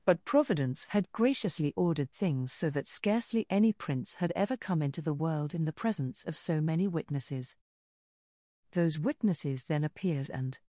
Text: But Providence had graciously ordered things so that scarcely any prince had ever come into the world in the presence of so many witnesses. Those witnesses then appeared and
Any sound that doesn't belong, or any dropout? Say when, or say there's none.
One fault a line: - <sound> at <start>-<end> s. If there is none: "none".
none